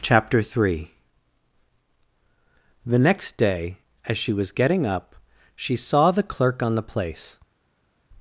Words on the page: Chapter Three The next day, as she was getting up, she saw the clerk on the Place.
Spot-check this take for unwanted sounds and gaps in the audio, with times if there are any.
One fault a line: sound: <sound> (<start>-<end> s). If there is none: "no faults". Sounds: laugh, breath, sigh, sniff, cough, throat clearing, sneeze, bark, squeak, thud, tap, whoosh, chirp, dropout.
no faults